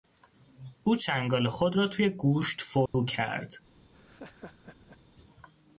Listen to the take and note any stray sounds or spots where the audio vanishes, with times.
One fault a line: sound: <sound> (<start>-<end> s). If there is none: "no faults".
sound: dropout (2.9-2.9 s)
sound: laugh (3.9-5.0 s)